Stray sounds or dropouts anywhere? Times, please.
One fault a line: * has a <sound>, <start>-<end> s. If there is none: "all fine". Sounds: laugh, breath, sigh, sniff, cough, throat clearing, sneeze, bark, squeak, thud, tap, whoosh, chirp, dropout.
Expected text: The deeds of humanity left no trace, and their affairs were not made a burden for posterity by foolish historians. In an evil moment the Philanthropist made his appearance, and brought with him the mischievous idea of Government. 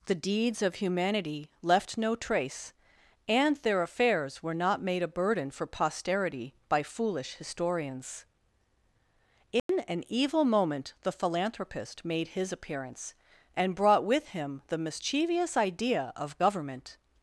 * has a dropout, 9.6-9.7 s